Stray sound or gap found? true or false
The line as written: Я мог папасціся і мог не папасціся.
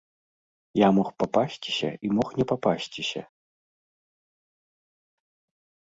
false